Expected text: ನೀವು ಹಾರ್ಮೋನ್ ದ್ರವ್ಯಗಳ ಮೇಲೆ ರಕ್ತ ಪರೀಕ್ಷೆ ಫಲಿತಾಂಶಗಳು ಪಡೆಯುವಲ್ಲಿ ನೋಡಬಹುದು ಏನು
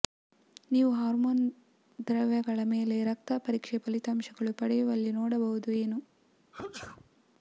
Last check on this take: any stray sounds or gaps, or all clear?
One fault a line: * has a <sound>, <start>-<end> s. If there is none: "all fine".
* has a sneeze, 6.5-7.1 s